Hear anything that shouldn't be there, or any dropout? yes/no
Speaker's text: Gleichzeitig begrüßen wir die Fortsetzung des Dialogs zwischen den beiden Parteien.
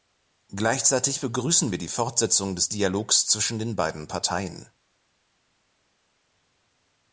no